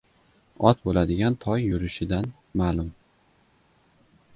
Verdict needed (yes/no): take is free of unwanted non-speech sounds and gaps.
yes